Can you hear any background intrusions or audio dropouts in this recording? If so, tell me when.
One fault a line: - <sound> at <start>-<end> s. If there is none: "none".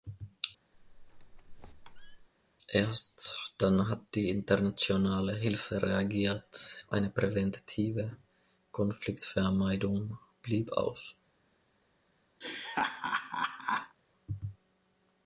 - squeak at 0.7-2.3 s
- laugh at 12.4-14.0 s